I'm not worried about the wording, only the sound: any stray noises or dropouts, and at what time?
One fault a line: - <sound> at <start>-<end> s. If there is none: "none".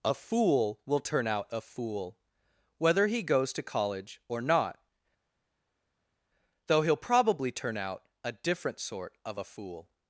none